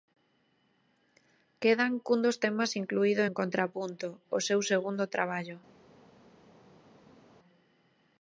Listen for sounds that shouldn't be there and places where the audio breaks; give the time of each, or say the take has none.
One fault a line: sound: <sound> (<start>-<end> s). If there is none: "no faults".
no faults